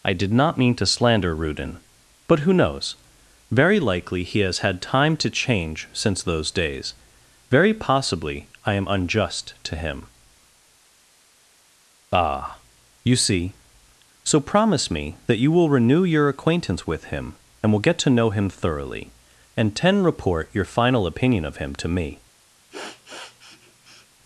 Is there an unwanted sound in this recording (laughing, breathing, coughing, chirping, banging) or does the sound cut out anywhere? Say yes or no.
yes